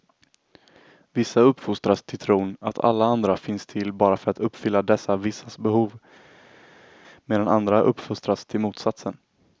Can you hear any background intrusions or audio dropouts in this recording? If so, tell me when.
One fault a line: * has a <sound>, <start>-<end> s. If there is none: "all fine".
all fine